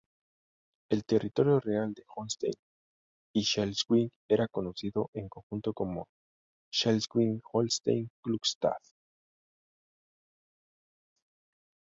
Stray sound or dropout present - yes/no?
no